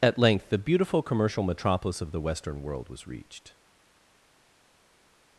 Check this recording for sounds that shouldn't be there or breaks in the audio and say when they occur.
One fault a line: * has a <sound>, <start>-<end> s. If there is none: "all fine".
all fine